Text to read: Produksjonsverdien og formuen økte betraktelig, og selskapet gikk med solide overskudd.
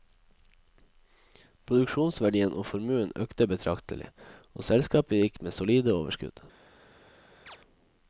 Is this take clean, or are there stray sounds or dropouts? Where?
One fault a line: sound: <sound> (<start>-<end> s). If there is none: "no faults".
sound: chirp (7.5-7.6 s)